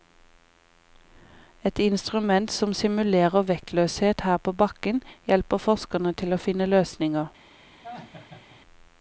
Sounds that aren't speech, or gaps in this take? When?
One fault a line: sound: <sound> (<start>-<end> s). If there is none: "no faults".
sound: laugh (7.8-8.6 s)